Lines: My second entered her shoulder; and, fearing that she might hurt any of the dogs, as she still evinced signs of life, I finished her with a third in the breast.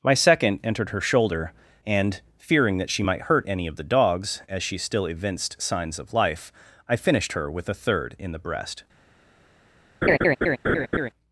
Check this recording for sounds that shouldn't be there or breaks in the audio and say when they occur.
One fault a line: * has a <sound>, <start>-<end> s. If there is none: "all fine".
* has a laugh, 10.0-11.1 s